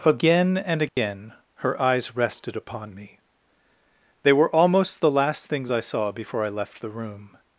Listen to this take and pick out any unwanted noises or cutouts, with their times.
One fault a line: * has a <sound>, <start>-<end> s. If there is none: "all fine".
* has a dropout, 0.9-1.0 s